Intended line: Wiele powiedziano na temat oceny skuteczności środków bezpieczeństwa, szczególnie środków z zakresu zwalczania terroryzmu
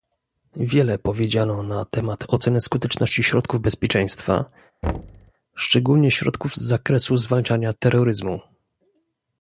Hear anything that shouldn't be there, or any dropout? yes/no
yes